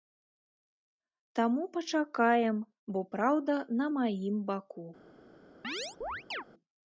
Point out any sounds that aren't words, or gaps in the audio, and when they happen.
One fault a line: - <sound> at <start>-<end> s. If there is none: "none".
- chirp at 5.6-6.4 s